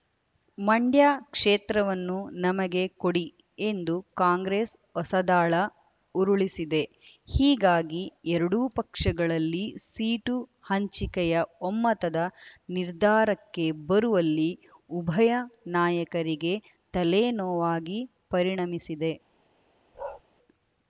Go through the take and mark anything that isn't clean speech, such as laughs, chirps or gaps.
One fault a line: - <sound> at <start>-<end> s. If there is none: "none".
- bark at 19.9-20.2 s